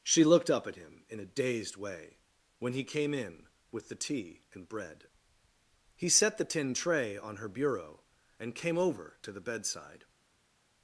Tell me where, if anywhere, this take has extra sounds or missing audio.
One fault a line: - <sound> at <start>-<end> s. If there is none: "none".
none